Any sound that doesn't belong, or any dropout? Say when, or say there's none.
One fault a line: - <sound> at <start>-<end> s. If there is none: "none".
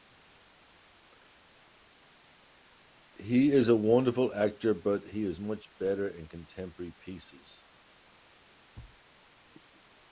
- thud at 8.7-9.0 s